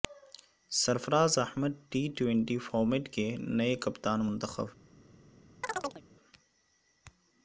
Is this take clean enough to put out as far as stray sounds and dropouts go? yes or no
no